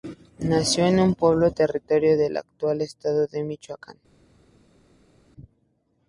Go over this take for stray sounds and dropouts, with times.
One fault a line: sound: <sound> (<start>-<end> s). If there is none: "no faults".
no faults